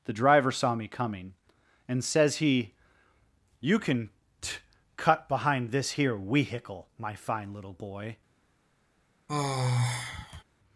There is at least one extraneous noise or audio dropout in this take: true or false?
true